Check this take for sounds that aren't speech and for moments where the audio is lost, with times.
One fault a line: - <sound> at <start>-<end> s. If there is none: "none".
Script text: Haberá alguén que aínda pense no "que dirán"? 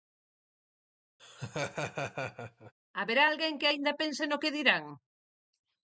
- laugh at 1.2-2.7 s